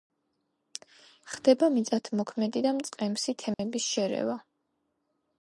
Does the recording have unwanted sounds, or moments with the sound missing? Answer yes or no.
yes